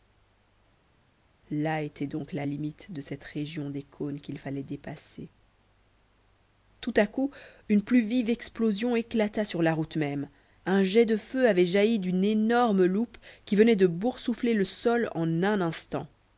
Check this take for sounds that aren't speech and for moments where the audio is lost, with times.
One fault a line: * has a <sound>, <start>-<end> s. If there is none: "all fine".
all fine